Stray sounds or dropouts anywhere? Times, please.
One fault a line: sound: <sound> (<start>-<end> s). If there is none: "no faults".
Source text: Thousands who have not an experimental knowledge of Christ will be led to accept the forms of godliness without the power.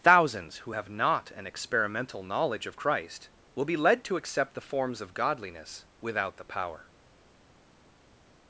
no faults